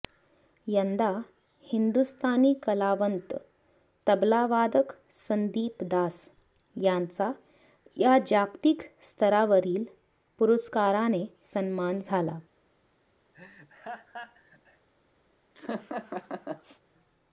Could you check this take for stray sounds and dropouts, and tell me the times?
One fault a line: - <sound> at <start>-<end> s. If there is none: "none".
- laugh at 13.3-14.9 s
- laugh at 15.5-16.8 s